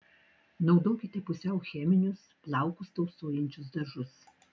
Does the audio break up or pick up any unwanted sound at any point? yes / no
no